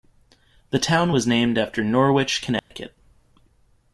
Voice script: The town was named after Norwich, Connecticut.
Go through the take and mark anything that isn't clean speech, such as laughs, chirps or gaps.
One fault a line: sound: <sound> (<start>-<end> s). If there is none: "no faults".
sound: dropout (2.6-2.7 s)